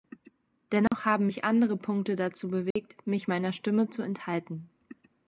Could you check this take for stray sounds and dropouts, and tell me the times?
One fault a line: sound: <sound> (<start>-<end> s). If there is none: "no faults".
sound: dropout (0.9-0.9 s)
sound: dropout (2.7-2.8 s)